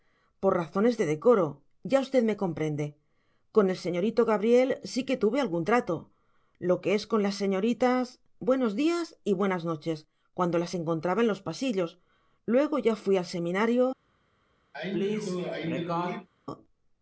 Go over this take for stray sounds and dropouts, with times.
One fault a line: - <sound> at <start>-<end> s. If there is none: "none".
- sneeze at 14.7-16.3 s